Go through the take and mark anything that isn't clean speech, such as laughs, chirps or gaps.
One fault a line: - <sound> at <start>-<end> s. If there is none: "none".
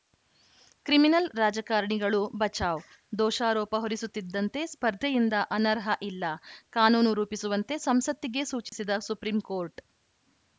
- dropout at 8.7-8.7 s